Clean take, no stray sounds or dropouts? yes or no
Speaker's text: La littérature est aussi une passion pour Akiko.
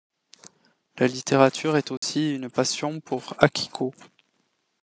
no